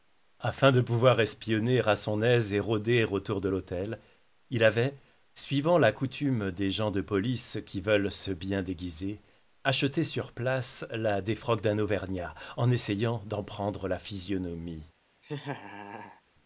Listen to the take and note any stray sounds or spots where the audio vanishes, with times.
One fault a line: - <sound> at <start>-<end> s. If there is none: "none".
- laugh at 15.2-16.2 s